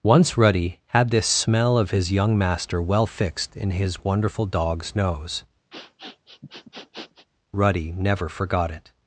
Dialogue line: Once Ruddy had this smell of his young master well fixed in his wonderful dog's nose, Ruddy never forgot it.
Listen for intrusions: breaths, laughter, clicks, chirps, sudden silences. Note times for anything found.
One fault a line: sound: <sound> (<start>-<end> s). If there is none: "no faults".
sound: sniff (5.7-7.3 s)